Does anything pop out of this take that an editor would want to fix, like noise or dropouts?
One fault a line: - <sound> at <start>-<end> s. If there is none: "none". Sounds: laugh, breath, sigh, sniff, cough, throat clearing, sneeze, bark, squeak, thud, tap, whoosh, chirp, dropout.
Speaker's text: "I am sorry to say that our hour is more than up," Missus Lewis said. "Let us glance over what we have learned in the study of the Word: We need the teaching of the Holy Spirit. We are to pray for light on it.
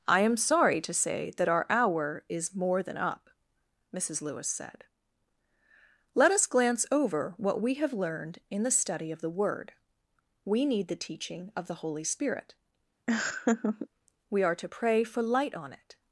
- laugh at 13.1-13.9 s